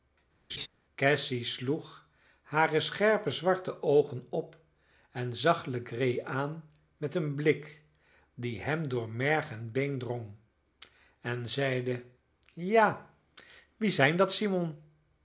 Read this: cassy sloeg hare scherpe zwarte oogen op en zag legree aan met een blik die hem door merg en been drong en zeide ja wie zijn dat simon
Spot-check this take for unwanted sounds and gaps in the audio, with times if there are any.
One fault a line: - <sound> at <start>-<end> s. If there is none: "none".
- laugh at 0.5-0.7 s